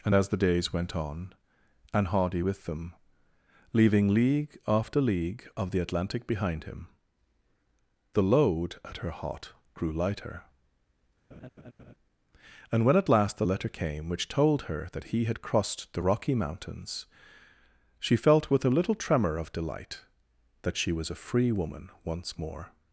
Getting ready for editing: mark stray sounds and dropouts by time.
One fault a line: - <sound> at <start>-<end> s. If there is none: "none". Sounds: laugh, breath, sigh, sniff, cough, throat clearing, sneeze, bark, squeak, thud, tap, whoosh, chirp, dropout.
- laugh at 11.3-11.9 s